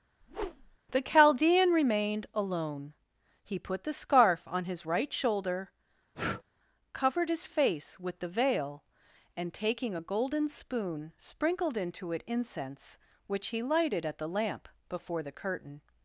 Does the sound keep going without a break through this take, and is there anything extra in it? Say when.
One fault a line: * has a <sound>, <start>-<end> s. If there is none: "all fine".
* has a whoosh, 0.2-0.8 s
* has a breath, 6.1-6.4 s